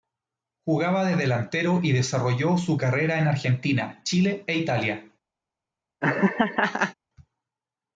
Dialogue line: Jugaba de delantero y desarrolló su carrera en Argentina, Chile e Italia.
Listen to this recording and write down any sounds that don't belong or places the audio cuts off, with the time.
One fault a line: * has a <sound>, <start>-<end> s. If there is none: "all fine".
* has a laugh, 6.0-6.9 s